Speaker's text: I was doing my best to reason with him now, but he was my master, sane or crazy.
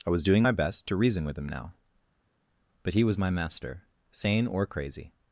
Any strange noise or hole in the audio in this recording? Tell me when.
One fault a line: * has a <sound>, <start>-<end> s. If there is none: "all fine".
all fine